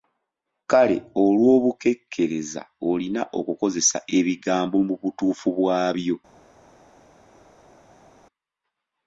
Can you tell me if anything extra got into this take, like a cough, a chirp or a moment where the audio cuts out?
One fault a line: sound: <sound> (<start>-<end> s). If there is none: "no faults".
no faults